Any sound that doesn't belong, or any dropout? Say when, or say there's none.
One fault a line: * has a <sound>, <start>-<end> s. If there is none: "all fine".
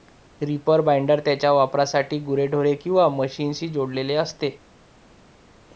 all fine